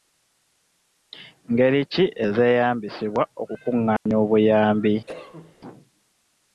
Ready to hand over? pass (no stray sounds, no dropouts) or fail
fail